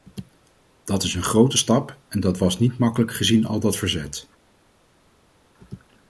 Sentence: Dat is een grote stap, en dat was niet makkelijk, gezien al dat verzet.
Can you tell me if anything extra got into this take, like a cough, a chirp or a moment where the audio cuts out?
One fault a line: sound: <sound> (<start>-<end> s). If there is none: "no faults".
no faults